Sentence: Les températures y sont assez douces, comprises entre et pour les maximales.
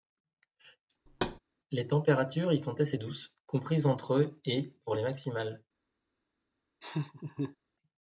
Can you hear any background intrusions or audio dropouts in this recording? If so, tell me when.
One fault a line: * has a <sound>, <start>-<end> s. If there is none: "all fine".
* has a thud, 1.1-1.4 s
* has a laugh, 6.8-7.6 s